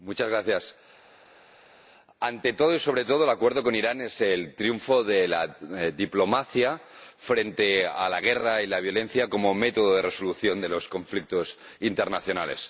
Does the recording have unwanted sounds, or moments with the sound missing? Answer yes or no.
no